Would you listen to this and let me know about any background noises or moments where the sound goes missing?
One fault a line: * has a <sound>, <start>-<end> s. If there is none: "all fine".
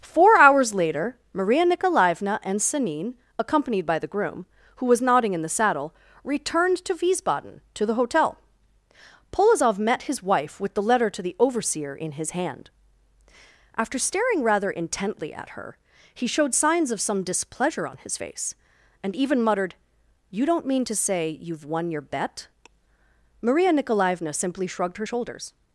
all fine